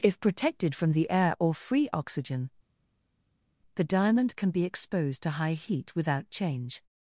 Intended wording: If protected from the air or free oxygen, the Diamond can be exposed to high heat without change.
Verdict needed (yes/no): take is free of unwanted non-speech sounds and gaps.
yes